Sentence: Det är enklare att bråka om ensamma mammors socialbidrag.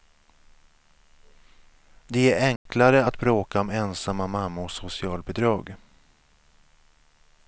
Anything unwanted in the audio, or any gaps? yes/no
yes